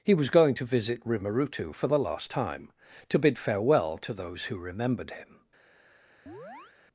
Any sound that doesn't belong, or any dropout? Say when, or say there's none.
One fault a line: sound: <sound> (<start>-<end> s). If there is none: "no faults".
sound: chirp (6.3-6.8 s)